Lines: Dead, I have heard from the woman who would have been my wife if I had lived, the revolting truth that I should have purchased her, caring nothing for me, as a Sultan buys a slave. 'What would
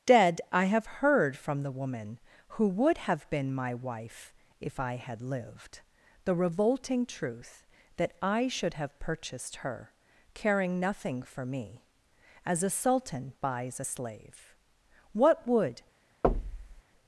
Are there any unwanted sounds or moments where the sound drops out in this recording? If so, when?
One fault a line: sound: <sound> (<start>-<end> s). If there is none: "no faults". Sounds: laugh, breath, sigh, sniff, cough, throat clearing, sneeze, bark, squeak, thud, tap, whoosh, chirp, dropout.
sound: thud (16.2-16.8 s)